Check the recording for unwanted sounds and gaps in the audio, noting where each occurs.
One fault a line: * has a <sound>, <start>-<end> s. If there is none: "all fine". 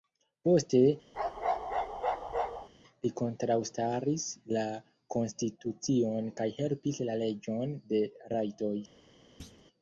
* has a bark, 1.1-2.7 s
* has a thud, 9.4-9.6 s